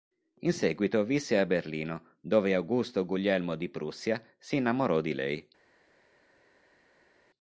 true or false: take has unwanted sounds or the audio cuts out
false